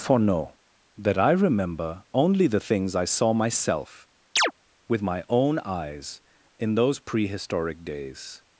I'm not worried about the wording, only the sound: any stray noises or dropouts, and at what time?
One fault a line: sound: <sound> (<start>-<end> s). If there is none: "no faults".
sound: chirp (4.4-4.5 s)